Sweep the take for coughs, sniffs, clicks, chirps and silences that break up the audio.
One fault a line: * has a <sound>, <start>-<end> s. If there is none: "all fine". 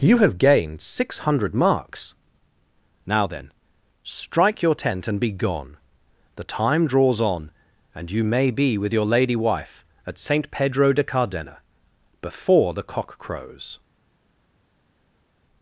all fine